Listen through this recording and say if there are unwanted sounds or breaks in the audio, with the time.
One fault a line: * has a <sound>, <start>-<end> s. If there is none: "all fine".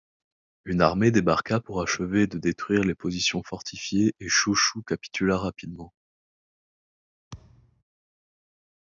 * has a thud, 7.3-7.8 s